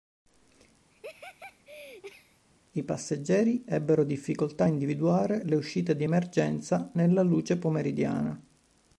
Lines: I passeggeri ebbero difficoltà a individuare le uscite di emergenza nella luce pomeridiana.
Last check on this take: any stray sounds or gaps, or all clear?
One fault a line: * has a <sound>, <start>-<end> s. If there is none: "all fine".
* has a laugh, 0.9-2.4 s